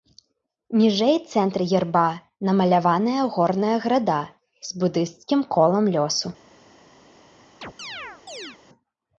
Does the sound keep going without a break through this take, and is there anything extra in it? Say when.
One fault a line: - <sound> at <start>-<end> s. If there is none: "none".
- chirp at 7.6-8.6 s